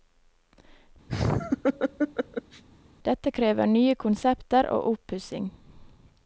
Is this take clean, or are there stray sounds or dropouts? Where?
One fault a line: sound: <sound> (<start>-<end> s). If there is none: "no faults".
sound: laugh (1.1-2.6 s)